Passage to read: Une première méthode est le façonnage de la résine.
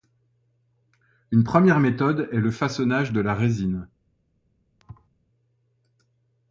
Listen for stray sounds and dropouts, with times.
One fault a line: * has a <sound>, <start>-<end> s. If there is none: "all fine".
* has a thud, 4.8-5.1 s